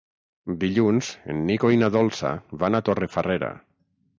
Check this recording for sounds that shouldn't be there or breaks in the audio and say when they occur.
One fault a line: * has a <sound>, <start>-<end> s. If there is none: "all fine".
all fine